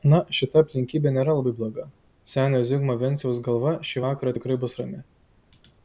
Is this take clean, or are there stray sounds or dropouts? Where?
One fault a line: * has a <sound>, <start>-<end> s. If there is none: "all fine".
all fine